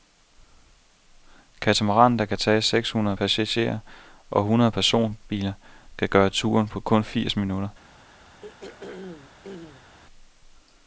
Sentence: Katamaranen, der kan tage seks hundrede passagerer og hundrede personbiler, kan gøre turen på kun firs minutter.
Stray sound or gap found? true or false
true